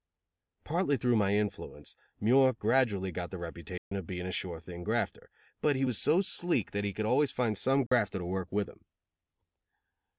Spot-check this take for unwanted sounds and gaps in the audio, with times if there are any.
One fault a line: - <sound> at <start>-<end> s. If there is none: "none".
- dropout at 3.8-3.9 s
- dropout at 7.9-7.9 s